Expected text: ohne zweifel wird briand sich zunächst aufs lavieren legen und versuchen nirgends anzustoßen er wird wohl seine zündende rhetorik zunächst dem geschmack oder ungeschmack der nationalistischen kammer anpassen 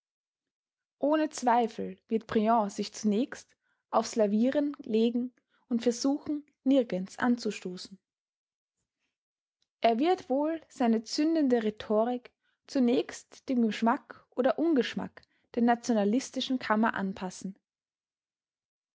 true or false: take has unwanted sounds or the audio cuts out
false